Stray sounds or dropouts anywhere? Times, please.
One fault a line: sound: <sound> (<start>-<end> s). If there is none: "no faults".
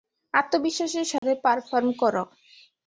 sound: dropout (1.2-1.2 s)